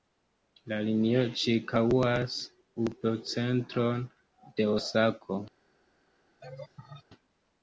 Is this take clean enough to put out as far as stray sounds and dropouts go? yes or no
no